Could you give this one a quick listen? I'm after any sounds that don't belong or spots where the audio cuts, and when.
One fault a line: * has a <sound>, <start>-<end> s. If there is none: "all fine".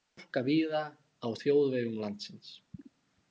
all fine